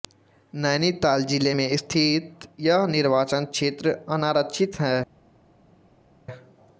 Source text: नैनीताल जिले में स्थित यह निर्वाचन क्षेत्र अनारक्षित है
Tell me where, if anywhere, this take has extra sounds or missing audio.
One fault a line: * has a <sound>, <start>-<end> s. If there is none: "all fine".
all fine